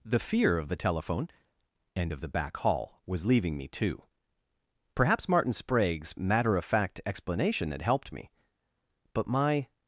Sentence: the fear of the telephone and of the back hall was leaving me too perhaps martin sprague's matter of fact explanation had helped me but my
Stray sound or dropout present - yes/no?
no